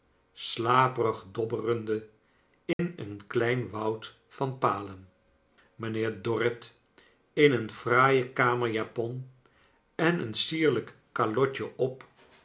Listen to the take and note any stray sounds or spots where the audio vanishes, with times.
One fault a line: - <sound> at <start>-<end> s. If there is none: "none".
- dropout at 2.7-2.8 s